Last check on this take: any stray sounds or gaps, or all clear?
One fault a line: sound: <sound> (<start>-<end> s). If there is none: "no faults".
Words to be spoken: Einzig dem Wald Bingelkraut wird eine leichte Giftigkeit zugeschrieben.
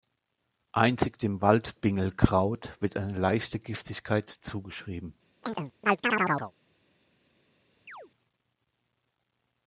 sound: chirp (5.4-6.5 s)
sound: chirp (7.9-8.1 s)